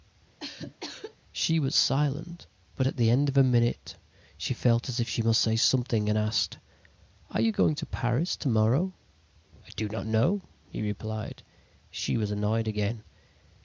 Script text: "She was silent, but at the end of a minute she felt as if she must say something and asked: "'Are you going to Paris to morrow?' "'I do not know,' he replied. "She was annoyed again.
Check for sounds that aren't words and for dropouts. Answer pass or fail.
fail